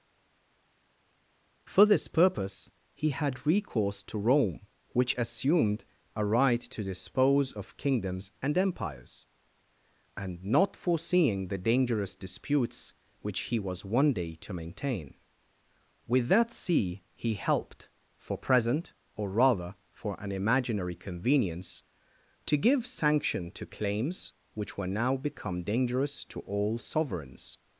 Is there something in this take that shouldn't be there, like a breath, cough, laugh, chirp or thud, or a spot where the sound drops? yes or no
no